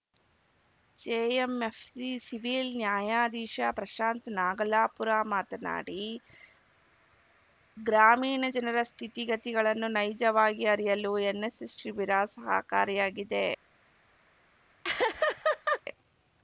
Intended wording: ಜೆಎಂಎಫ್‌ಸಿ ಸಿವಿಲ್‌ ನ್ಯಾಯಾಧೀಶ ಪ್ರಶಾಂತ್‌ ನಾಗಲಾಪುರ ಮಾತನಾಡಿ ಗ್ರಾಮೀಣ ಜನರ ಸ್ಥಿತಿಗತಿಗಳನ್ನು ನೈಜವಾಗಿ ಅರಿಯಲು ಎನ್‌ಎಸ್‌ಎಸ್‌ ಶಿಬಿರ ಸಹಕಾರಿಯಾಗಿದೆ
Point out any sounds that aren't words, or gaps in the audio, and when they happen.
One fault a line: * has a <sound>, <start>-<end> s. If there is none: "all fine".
* has a laugh, 14.8-15.8 s